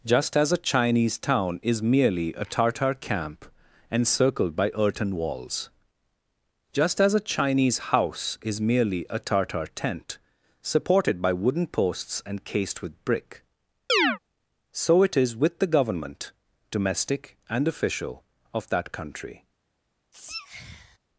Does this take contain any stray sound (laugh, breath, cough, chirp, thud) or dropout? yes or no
yes